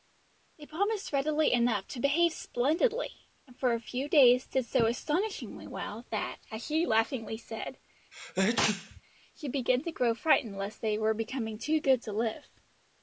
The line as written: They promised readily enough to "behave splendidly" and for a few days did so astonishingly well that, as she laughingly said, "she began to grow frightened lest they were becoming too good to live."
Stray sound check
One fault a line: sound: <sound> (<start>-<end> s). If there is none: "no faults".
sound: sneeze (8.1-9.0 s)